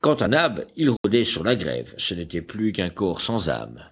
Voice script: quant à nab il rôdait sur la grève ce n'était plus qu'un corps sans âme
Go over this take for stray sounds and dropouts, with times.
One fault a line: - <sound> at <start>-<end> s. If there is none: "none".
- dropout at 1.0-1.0 s